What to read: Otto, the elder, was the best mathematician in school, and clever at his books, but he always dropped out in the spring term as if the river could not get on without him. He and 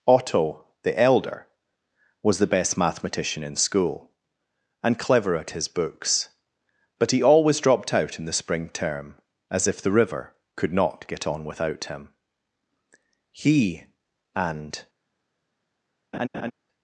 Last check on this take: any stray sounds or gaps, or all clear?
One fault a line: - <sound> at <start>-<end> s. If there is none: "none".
- laugh at 16.1-16.5 s